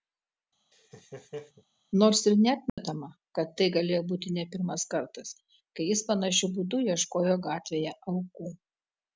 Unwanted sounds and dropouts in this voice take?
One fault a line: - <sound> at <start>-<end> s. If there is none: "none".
- laugh at 0.7-1.6 s
- dropout at 2.7-2.8 s